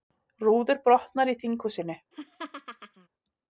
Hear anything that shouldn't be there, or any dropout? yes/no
yes